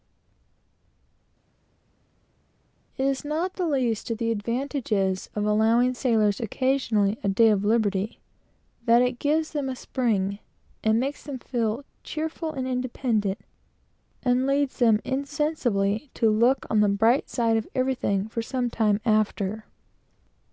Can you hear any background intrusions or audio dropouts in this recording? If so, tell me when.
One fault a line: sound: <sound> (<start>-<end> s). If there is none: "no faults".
no faults